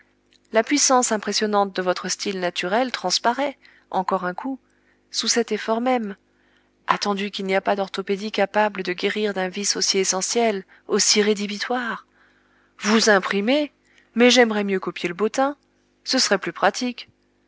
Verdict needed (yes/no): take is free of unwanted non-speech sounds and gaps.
yes